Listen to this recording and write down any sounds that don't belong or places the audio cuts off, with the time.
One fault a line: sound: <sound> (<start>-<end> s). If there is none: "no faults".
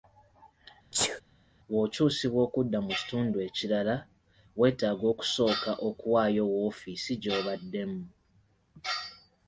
sound: sneeze (0.9-1.2 s)